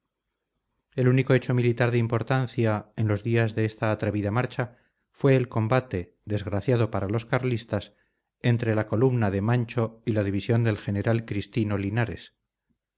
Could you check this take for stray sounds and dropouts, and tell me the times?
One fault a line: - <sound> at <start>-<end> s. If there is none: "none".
none